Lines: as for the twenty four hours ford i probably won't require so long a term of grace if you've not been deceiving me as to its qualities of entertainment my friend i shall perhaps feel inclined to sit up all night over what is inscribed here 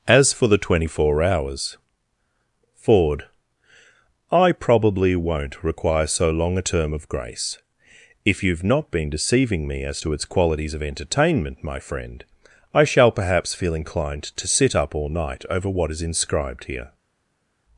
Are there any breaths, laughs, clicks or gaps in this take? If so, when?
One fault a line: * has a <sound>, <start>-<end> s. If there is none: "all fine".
all fine